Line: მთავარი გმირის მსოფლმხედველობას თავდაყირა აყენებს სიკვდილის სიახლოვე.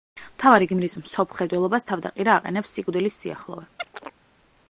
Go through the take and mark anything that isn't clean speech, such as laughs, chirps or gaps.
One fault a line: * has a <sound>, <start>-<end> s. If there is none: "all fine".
* has a chirp, 3.8-4.2 s